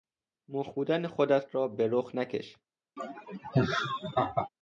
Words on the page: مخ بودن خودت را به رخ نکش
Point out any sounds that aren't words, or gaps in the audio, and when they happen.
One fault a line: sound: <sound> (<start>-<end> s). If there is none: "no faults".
sound: laugh (3.0-4.5 s)